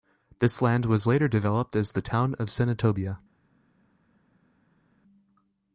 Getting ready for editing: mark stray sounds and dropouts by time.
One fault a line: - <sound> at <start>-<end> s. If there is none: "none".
none